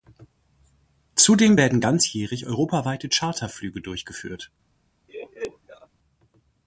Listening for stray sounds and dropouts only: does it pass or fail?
fail